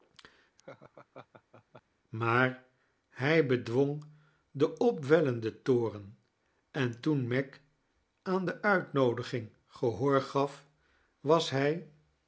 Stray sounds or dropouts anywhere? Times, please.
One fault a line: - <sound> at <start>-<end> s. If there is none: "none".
- laugh at 0.6-1.8 s